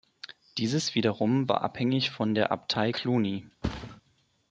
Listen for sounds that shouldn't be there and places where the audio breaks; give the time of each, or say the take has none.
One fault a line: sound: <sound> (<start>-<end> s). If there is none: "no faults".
sound: thud (3.6-4.0 s)